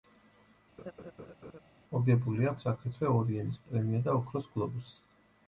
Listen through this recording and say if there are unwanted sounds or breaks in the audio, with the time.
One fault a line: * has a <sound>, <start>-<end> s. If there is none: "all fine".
* has a laugh, 0.8-1.6 s